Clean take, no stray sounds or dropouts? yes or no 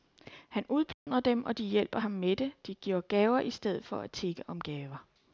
no